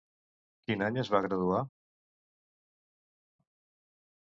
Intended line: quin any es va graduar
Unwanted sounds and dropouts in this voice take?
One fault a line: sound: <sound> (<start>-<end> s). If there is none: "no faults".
no faults